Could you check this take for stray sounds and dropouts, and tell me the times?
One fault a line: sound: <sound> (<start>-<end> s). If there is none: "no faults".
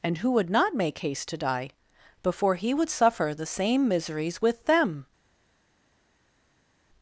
no faults